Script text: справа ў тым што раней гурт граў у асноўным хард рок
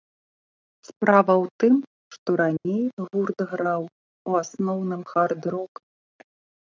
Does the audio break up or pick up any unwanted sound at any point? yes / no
yes